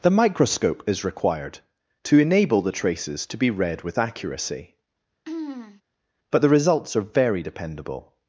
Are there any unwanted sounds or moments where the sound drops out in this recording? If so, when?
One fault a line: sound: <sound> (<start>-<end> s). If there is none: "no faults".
sound: throat clearing (5.3-5.8 s)